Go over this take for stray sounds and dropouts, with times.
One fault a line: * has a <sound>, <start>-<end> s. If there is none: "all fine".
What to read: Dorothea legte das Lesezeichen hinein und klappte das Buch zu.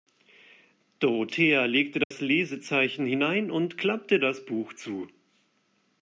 * has a dropout, 2.0-2.1 s